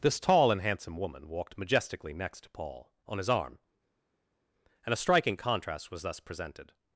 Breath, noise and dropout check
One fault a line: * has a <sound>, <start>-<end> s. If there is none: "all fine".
all fine